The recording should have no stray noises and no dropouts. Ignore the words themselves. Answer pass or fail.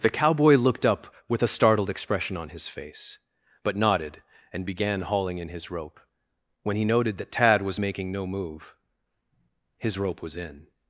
pass